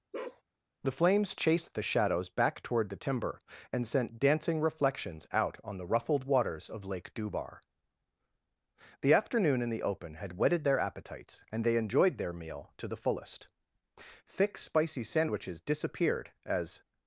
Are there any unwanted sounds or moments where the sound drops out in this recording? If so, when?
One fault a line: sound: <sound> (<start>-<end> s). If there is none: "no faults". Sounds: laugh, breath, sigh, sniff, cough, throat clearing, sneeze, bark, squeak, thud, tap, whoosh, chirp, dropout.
sound: bark (0.1-0.4 s)